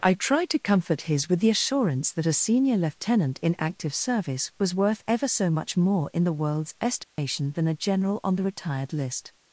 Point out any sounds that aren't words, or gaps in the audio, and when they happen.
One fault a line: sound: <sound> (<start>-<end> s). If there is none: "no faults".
sound: dropout (7.0-7.2 s)